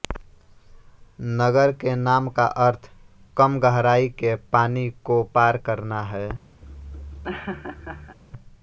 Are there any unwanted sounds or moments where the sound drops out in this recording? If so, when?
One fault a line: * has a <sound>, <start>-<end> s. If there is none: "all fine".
* has a laugh, 6.6-8.2 s